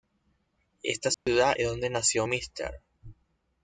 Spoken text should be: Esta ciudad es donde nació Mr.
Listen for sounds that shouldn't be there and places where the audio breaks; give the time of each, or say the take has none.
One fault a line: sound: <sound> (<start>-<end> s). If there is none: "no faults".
sound: dropout (1.1-1.3 s)